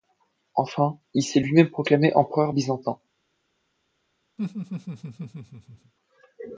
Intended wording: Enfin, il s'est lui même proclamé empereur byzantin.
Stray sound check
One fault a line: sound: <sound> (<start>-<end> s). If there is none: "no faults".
sound: laugh (4.4-5.9 s)